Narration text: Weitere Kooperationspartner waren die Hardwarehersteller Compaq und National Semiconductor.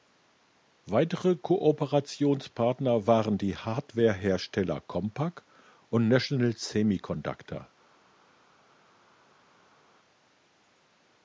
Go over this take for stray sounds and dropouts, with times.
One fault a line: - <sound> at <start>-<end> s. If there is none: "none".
none